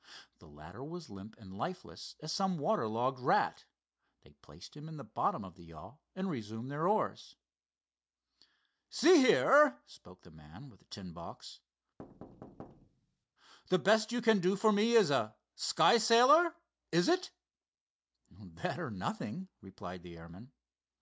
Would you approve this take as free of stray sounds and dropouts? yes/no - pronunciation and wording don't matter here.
no